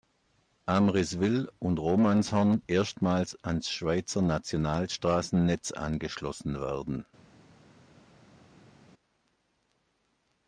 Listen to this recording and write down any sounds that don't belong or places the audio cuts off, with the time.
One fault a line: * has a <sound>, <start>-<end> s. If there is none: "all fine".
all fine